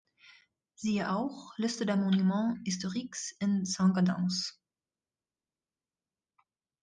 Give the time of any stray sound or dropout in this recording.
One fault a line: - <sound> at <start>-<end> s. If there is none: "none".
none